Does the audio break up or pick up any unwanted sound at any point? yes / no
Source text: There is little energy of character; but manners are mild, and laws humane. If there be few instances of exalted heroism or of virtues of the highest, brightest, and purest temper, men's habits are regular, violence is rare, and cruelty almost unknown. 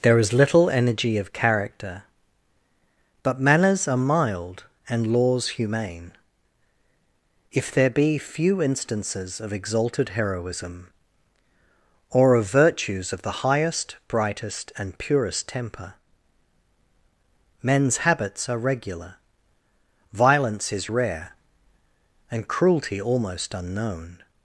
no